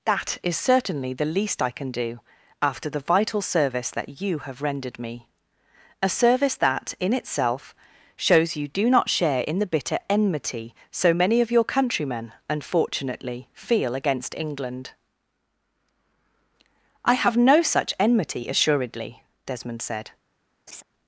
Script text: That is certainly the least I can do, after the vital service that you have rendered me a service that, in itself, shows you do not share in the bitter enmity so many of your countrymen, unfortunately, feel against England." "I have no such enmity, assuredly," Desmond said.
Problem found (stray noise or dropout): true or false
true